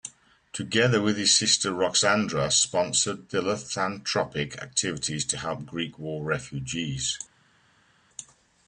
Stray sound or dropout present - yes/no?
no